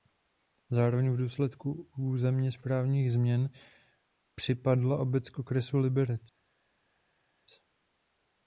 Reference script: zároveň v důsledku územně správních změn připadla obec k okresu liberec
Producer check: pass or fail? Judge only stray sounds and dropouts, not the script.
pass